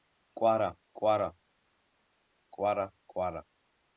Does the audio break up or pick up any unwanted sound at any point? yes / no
no